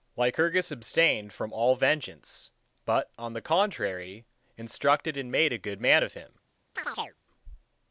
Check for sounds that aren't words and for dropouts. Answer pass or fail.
fail